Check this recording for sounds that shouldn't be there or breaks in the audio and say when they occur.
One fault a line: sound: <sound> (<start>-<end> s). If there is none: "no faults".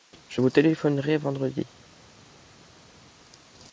no faults